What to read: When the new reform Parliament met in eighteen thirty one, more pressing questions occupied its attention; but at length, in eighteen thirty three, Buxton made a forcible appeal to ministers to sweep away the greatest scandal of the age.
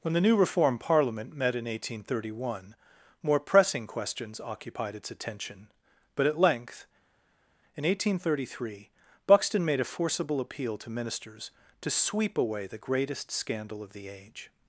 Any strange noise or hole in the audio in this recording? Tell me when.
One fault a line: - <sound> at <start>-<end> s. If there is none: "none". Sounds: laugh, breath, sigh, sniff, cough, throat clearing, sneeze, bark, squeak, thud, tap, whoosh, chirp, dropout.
none